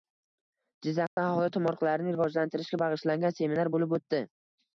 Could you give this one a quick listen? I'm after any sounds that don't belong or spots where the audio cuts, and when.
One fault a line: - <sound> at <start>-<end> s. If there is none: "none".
- dropout at 1.1-1.2 s